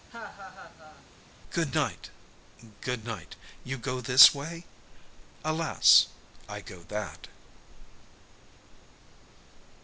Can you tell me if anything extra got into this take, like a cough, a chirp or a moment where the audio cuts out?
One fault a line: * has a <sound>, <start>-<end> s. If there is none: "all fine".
* has a laugh, 0.1-1.1 s